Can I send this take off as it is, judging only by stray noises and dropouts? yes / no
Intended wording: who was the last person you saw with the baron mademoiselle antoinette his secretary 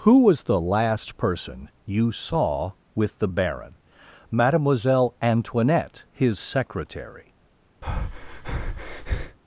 no